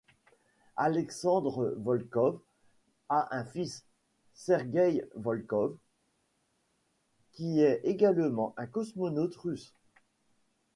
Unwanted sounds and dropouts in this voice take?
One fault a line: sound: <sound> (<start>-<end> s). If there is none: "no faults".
no faults